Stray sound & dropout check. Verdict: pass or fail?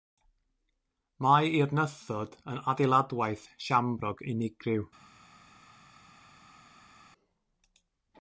pass